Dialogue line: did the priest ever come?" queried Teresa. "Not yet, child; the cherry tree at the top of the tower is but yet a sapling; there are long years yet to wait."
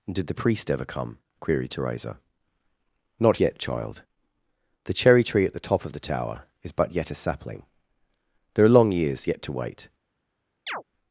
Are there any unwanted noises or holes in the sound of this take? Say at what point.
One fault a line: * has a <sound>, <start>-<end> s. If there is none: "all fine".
* has a chirp, 10.7-10.8 s